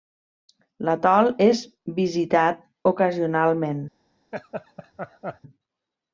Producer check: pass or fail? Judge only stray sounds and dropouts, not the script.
fail